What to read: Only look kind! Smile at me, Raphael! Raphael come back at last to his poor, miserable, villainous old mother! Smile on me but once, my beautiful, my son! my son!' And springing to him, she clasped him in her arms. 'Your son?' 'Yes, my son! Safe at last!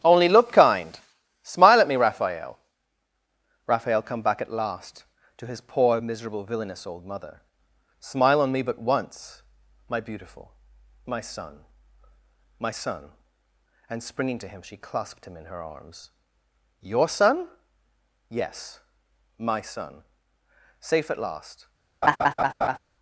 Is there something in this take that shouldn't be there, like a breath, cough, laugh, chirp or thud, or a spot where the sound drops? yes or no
yes